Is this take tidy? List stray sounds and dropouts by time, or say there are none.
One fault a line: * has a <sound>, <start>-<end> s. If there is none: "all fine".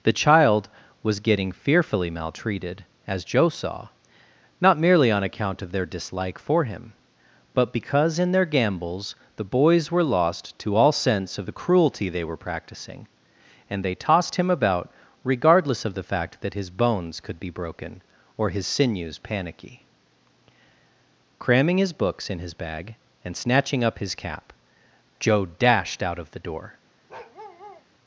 * has a bark, 27.1-27.9 s